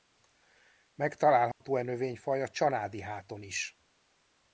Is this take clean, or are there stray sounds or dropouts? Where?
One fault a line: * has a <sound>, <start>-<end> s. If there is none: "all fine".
* has a dropout, 1.5-1.6 s